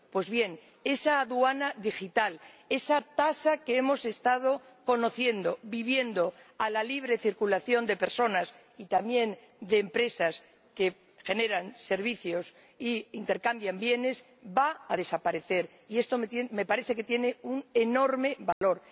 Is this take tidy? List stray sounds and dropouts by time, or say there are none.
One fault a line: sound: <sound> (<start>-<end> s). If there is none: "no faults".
sound: dropout (18.5-18.6 s)